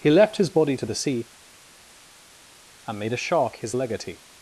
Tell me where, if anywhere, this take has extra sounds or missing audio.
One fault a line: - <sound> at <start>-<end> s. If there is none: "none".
none